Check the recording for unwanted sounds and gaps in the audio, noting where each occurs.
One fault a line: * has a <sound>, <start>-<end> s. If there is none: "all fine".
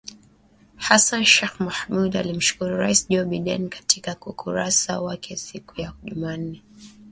all fine